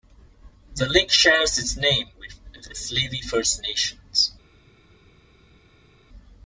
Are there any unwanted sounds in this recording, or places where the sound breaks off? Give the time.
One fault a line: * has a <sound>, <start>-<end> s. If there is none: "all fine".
all fine